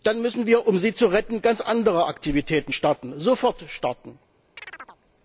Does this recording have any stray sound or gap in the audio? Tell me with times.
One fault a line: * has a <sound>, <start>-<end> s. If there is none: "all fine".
* has a chirp, 4.6-5.0 s